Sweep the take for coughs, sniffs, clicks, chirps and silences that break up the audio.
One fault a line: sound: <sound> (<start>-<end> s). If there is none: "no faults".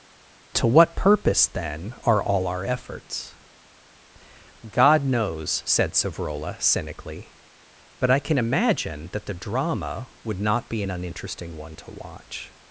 no faults